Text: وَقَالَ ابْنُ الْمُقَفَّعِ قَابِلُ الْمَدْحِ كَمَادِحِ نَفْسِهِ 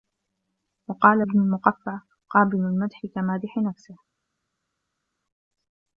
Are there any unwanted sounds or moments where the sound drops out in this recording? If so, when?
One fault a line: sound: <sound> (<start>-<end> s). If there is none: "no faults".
no faults